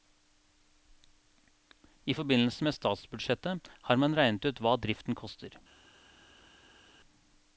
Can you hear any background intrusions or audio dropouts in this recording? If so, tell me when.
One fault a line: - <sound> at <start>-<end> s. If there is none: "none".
none